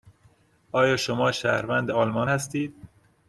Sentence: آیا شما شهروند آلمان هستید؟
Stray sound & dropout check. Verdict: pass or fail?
pass